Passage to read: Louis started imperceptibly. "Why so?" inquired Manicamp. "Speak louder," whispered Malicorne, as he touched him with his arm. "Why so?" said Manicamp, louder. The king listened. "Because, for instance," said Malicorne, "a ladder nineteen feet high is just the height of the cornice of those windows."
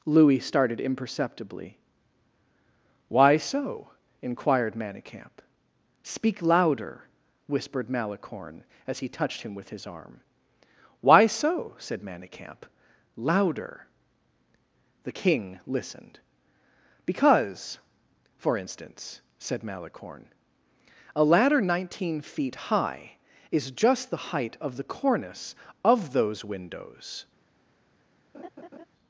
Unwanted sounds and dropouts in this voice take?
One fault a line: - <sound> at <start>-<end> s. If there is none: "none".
- laugh at 28.3-28.9 s